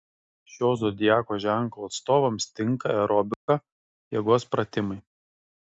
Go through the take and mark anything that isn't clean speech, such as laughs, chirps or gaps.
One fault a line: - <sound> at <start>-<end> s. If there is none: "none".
- dropout at 3.3-3.5 s